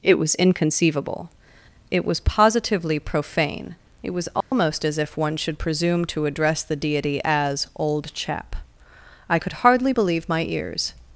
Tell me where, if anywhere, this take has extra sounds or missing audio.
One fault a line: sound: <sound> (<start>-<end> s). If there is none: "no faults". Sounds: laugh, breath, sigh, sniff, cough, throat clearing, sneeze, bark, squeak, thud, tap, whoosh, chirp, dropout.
sound: dropout (4.4-4.5 s)